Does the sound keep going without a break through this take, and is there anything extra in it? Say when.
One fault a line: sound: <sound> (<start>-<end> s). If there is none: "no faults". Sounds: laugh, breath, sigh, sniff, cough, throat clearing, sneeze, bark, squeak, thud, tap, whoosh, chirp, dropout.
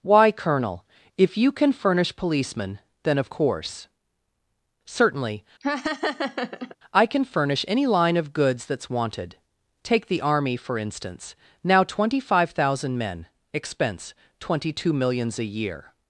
sound: laugh (5.6-6.8 s)